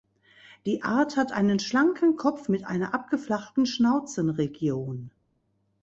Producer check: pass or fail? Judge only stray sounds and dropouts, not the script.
pass